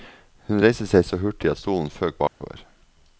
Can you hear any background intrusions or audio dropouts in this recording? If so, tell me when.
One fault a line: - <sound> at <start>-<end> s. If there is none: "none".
- dropout at 2.3-2.4 s